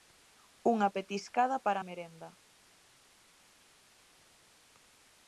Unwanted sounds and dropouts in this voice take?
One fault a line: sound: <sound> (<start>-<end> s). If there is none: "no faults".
no faults